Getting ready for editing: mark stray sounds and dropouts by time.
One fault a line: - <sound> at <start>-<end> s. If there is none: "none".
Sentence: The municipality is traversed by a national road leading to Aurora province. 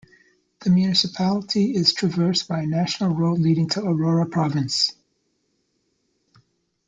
none